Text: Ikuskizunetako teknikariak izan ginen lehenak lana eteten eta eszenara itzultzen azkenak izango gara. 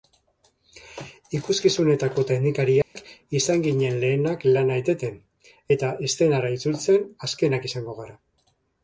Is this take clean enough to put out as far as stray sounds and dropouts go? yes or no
no